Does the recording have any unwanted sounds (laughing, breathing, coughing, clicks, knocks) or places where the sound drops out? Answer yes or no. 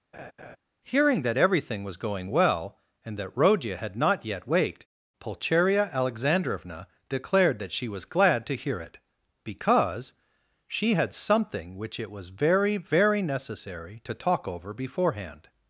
yes